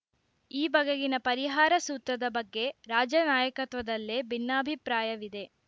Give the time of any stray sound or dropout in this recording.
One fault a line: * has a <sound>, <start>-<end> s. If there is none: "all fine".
all fine